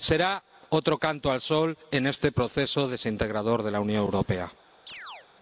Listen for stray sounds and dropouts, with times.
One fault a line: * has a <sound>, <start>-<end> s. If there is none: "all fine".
* has a chirp, 4.9-5.3 s